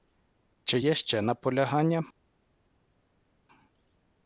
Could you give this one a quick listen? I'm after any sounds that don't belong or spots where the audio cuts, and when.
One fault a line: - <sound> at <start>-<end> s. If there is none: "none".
none